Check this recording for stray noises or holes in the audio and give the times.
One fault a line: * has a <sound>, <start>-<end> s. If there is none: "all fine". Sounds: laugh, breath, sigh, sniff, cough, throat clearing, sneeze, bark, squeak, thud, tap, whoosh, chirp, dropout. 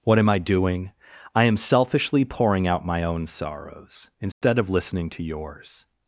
* has a dropout, 4.3-4.4 s